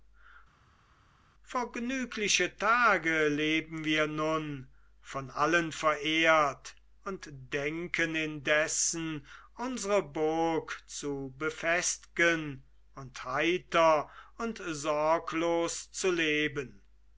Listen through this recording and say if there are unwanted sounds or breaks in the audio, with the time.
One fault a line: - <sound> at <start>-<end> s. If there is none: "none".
none